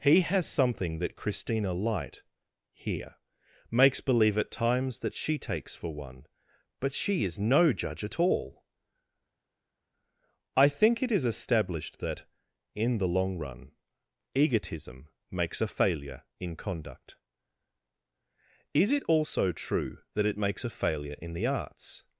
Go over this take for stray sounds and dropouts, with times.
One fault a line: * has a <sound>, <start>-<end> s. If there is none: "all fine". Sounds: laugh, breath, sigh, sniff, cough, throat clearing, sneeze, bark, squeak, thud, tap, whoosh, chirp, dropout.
all fine